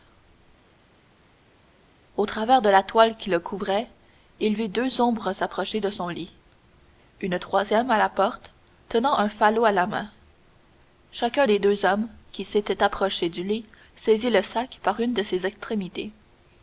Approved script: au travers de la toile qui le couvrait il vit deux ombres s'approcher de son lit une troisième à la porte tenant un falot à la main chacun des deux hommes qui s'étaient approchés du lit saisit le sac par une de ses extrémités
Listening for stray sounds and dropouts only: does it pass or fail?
pass